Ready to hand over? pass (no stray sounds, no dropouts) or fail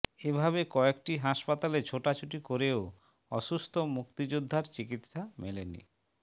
pass